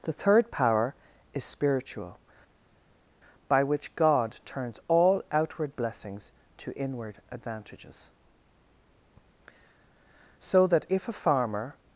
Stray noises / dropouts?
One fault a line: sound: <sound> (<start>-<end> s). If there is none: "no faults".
no faults